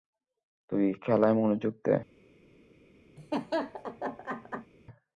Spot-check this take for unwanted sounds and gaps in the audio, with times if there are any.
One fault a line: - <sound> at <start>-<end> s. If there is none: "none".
- laugh at 3.2-4.7 s